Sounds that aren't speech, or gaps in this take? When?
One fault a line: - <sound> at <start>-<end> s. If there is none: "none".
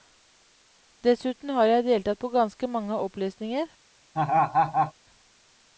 - laugh at 4.1-4.9 s